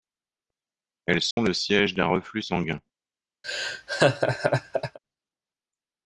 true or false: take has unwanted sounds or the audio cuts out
true